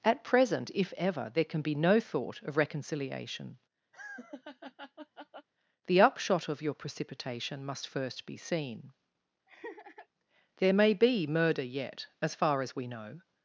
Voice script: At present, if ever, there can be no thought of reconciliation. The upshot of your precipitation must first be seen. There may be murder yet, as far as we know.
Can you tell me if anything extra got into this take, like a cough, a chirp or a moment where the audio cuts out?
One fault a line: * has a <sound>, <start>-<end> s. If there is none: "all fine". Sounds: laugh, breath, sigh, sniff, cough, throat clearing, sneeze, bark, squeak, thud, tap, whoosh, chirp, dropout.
* has a laugh, 3.9-5.5 s
* has a laugh, 9.5-10.1 s